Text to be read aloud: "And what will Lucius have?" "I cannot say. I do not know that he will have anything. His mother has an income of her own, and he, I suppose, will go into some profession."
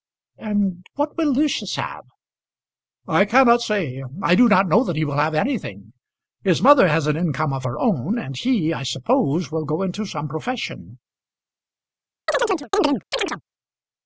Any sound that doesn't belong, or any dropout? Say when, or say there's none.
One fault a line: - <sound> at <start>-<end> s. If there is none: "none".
- chirp at 12.3-13.4 s